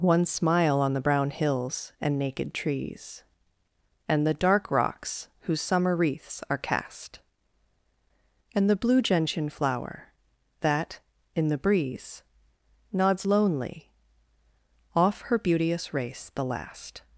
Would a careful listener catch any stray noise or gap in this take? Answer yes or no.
no